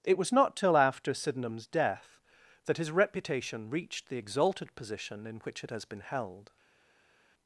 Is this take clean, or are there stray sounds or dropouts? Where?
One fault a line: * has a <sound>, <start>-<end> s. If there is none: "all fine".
all fine